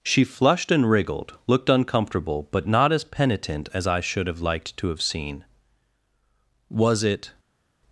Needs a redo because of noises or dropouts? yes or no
no